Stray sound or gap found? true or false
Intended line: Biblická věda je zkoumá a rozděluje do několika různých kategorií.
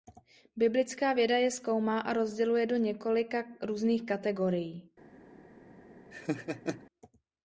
true